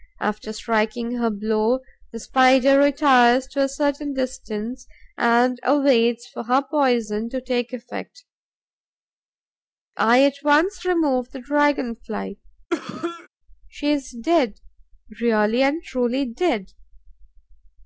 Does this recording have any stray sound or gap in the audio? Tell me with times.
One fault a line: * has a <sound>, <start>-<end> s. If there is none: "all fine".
* has a cough, 12.7-13.3 s